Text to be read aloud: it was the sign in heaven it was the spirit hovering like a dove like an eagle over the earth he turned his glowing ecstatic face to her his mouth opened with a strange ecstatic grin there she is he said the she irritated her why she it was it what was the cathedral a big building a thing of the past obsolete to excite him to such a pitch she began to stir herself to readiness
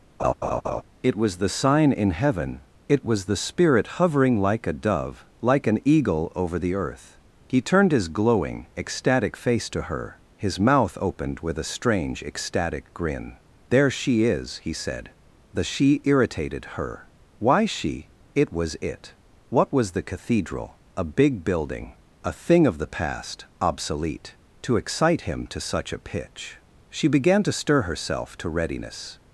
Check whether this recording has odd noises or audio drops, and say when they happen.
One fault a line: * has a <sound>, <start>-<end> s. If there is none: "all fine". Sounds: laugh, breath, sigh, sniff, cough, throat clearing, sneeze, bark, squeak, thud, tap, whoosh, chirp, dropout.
* has a laugh, 0.2-0.8 s